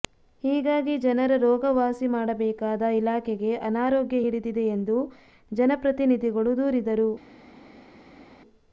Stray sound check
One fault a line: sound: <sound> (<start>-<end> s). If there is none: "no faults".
no faults